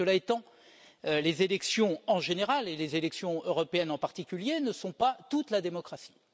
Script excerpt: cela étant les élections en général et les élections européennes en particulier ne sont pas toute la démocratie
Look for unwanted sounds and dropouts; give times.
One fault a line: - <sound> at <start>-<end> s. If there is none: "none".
none